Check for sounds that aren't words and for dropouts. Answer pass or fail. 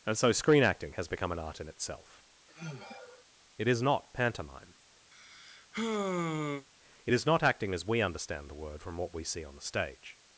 fail